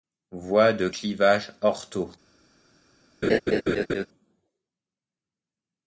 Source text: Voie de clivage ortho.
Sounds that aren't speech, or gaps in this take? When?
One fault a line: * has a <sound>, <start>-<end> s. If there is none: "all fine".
* has a laugh, 3.2-4.1 s